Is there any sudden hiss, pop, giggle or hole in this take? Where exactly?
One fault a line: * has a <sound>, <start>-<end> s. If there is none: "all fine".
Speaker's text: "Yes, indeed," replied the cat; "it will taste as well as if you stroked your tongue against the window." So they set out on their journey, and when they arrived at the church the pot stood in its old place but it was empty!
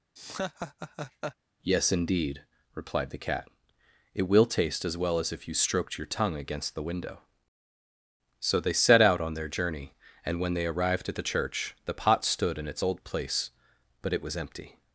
* has a laugh, 0.2-1.4 s